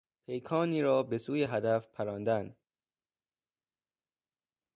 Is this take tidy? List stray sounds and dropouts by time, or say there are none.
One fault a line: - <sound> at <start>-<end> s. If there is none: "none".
none